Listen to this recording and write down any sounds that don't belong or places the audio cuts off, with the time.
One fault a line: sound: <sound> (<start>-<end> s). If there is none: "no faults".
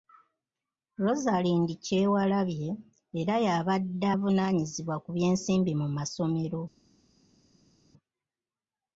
no faults